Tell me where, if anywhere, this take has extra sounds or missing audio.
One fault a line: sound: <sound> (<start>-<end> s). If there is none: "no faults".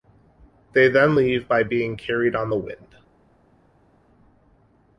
no faults